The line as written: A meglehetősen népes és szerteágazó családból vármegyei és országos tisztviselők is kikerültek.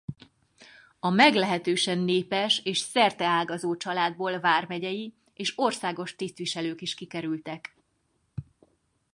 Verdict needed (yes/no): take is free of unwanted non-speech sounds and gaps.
yes